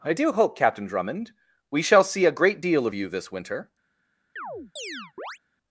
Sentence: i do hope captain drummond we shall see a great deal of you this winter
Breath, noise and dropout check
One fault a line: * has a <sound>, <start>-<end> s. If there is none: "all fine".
* has a chirp, 4.4-5.4 s